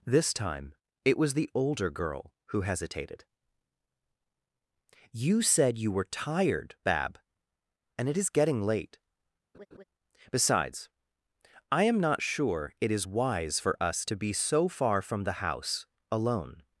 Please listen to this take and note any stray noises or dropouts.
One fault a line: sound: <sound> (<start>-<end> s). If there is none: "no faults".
sound: laugh (9.5-9.8 s)